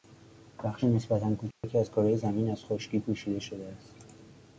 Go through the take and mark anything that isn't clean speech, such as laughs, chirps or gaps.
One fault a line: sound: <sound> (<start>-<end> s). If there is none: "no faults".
sound: dropout (1.5-1.6 s)